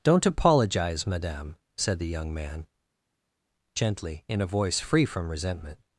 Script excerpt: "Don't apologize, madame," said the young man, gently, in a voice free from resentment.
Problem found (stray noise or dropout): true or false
false